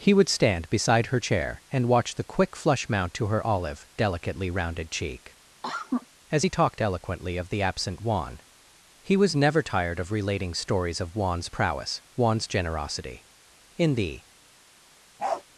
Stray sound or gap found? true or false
true